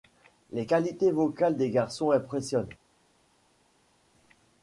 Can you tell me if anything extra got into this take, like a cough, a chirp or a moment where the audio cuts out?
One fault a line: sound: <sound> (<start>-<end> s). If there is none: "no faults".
no faults